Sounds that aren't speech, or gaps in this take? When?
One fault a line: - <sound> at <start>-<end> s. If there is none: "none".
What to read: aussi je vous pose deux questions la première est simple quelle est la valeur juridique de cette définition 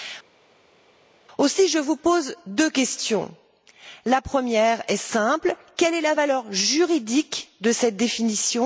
none